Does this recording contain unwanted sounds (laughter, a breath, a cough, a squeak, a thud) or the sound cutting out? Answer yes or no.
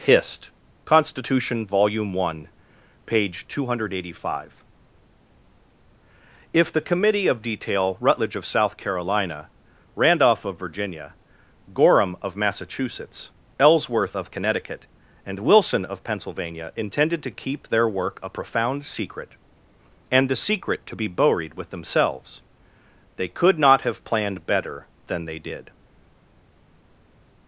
no